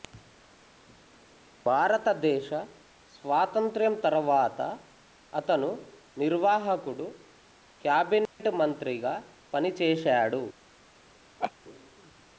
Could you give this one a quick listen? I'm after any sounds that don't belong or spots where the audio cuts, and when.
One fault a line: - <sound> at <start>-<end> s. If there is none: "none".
- dropout at 8.3-8.4 s
- laugh at 11.4-11.5 s